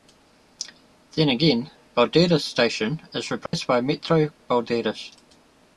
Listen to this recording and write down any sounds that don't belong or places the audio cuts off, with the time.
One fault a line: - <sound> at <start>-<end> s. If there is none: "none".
- dropout at 3.5-3.5 s